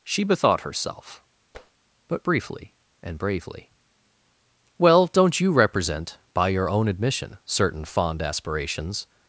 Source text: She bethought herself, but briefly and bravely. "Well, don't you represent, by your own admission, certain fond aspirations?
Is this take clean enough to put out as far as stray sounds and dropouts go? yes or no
no